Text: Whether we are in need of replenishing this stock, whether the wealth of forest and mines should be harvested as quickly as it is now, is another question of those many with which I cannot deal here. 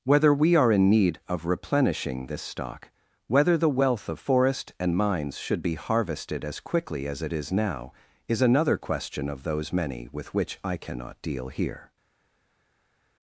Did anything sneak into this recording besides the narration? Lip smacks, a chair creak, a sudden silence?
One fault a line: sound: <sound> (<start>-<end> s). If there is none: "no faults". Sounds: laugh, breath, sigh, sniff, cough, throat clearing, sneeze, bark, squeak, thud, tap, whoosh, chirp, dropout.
no faults